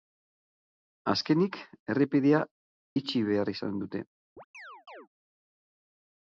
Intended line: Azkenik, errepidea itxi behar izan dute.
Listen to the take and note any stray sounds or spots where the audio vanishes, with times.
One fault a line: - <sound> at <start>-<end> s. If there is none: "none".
- chirp at 4.4-5.1 s